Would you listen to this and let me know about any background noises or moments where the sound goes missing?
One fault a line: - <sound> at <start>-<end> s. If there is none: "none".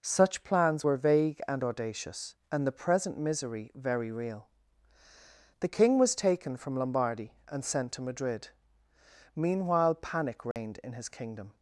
- dropout at 10.5-10.6 s